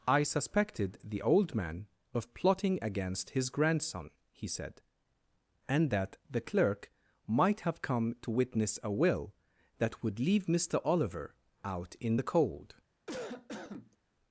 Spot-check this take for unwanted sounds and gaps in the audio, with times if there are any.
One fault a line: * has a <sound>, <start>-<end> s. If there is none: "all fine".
* has a cough, 13.1-14.0 s